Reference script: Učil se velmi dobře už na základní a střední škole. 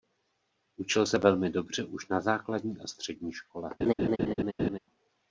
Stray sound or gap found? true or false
true